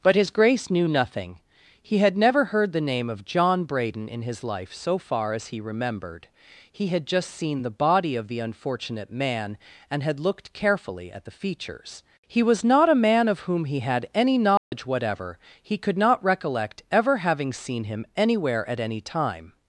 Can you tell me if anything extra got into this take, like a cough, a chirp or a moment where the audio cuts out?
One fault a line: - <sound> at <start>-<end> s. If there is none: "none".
- dropout at 14.6-14.7 s